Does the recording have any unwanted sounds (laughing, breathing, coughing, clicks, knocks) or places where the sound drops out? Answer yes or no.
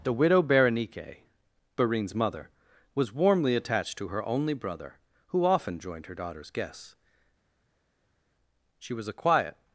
no